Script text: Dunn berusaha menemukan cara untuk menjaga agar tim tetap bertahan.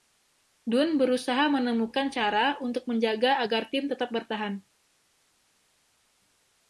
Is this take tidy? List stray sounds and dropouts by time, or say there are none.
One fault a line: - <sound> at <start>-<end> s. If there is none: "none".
none